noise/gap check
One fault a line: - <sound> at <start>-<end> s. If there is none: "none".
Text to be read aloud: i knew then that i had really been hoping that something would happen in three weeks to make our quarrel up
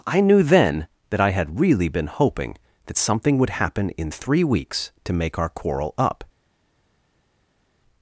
none